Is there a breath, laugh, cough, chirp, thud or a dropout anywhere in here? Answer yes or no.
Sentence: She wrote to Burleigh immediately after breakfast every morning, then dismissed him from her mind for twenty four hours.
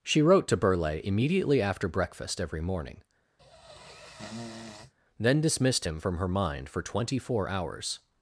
yes